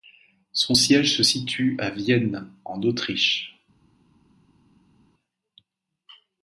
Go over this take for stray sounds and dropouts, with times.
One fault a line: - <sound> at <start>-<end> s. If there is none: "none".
none